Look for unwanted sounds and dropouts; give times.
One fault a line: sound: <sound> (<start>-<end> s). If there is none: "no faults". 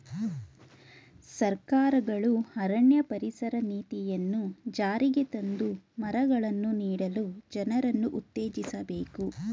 no faults